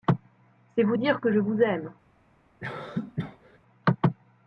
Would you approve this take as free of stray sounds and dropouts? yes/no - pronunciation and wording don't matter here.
no